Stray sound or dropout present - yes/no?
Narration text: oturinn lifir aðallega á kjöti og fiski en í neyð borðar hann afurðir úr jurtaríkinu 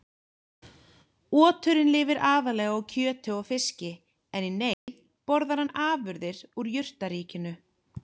yes